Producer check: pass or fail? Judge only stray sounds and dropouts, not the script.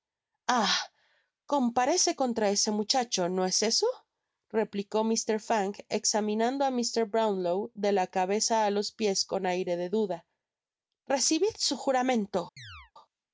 fail